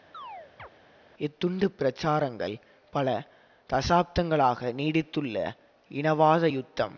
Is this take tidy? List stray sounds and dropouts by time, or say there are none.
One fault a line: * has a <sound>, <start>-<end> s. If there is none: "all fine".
* has a chirp, 0.1-0.7 s